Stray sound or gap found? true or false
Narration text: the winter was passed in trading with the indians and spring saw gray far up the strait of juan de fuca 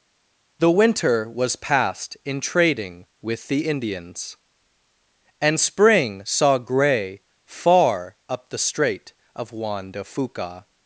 false